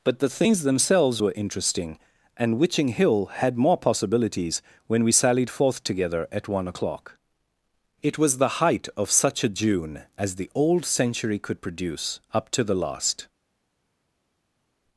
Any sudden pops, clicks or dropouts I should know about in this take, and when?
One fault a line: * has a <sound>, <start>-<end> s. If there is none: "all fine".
all fine